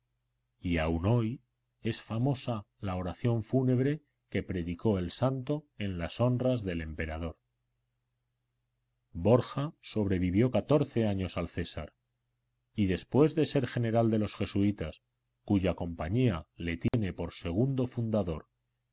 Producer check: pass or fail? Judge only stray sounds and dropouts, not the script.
fail